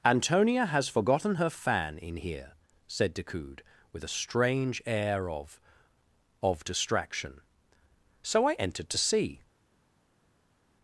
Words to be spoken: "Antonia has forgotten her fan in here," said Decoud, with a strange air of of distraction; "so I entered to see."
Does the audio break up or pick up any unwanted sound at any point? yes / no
no